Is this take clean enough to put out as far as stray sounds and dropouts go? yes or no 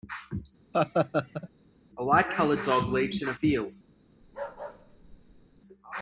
no